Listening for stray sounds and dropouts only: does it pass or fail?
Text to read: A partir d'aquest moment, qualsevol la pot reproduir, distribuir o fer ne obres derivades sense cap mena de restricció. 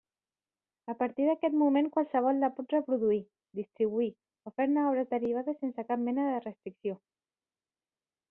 pass